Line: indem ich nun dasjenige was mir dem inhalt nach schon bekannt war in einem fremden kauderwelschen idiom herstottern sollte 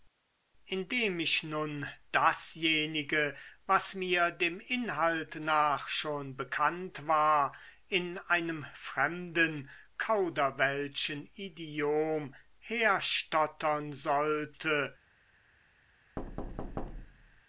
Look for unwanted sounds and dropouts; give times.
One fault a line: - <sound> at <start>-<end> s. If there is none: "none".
- thud at 16.2-17.4 s